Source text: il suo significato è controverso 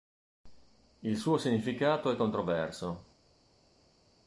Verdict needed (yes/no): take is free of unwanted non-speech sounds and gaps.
yes